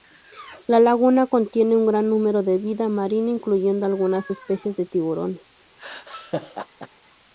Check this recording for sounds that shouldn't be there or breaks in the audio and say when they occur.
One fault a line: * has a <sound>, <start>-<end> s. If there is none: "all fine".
* has a laugh, 5.8-6.9 s